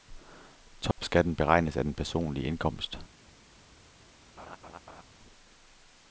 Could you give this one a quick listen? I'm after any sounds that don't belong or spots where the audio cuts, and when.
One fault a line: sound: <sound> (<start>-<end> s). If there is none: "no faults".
sound: dropout (0.9-1.0 s)
sound: laugh (4.4-5.0 s)